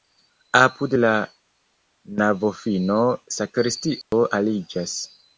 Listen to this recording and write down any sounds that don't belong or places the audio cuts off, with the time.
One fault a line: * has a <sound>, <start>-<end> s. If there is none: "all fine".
* has a dropout, 4.0-4.1 s